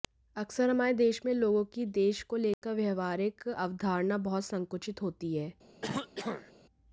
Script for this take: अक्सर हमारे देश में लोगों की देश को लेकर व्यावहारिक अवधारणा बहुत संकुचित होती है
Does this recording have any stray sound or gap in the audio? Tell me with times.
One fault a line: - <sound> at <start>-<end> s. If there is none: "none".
- dropout at 2.5-2.6 s
- throat clearing at 5.8-6.5 s